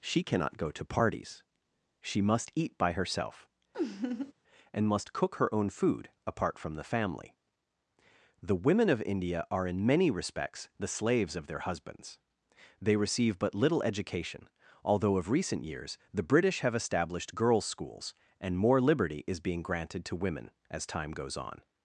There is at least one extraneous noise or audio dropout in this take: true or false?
true